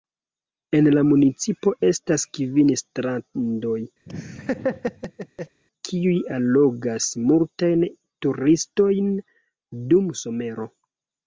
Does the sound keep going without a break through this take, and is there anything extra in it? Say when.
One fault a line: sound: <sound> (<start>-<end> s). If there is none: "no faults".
sound: laugh (4.1-5.6 s)